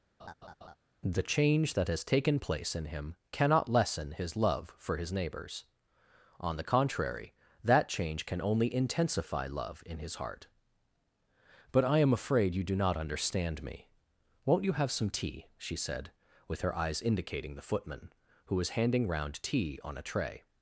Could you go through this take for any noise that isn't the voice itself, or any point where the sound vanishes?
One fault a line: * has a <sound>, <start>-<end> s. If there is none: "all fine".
* has a laugh, 0.2-0.8 s